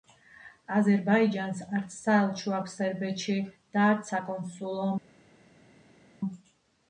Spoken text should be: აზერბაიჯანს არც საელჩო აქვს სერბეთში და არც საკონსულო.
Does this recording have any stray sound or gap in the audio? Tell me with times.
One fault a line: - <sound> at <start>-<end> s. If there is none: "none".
none